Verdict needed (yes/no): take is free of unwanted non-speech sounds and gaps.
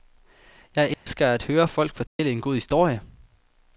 no